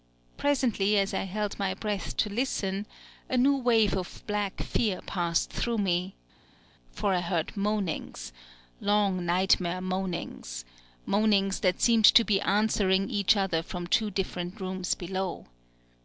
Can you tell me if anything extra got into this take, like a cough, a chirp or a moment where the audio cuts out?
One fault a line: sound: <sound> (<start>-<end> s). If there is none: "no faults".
no faults